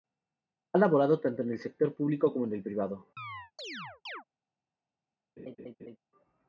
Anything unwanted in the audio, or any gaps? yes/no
yes